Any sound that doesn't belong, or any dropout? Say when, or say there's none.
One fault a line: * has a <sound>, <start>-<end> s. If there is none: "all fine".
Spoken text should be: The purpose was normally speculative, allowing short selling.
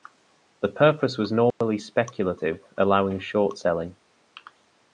* has a dropout, 1.5-1.6 s